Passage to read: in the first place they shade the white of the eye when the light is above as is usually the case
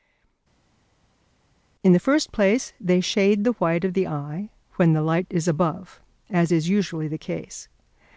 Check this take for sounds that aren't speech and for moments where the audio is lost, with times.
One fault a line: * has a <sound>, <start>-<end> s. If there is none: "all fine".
all fine